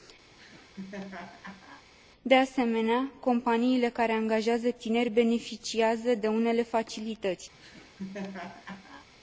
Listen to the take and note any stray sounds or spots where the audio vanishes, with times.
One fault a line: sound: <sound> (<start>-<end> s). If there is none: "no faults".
sound: laugh (0.3-1.9 s)
sound: laugh (7.5-9.1 s)